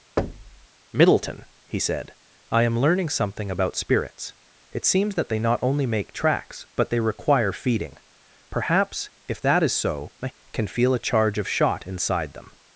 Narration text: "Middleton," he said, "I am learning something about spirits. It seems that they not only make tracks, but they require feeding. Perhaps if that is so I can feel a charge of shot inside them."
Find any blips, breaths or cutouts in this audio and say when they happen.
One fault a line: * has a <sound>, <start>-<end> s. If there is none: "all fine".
* has a thud, 0.2-0.7 s